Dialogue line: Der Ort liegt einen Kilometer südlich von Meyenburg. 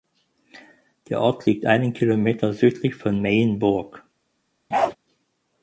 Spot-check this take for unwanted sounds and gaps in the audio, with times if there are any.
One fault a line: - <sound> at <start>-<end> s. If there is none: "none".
- bark at 4.7-5.0 s